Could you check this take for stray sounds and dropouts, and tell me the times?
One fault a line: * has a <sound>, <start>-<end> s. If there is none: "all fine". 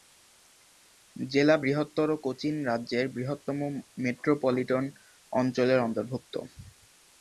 all fine